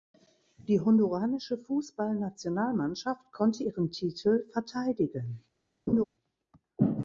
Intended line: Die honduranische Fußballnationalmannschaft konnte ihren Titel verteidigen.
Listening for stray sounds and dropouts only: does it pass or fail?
fail